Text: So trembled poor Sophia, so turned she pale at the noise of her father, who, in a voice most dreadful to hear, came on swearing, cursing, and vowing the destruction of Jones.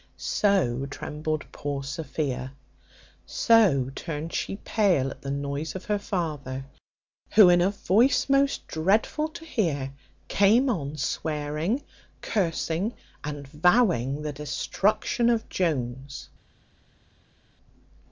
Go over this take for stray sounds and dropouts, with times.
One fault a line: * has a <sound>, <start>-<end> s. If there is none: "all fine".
all fine